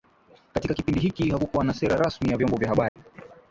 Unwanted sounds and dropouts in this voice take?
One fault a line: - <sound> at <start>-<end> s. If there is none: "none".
- dropout at 2.9-3.0 s